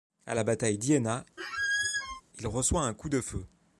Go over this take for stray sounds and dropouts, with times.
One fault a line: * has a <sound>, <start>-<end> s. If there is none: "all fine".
* has a squeak, 1.4-2.2 s